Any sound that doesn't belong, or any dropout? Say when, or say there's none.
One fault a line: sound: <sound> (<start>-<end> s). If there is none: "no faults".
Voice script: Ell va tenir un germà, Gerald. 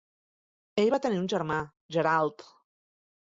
no faults